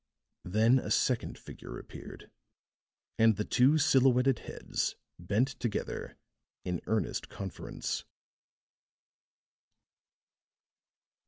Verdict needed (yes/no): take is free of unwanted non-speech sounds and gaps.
yes